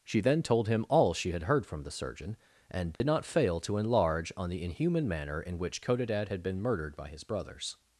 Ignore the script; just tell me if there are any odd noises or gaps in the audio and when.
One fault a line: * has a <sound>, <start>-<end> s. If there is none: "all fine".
* has a dropout, 3.0-3.0 s